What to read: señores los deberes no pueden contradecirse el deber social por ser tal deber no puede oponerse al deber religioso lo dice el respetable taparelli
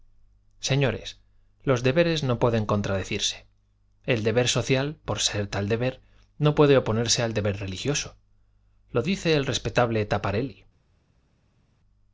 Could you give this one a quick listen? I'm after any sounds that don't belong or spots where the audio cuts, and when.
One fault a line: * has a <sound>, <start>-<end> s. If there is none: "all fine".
all fine